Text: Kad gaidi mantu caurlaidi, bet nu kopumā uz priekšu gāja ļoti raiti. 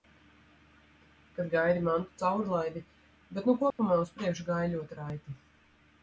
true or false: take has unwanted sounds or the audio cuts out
true